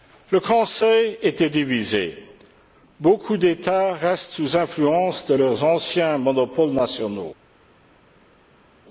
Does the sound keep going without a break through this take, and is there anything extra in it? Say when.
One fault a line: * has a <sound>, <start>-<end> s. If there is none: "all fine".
all fine